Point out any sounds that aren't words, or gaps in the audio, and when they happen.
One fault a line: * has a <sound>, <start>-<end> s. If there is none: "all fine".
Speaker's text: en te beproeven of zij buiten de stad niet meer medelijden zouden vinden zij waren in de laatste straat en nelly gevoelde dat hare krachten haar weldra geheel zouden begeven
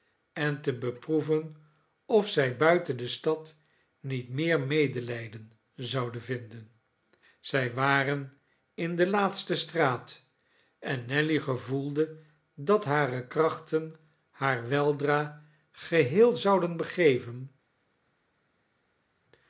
all fine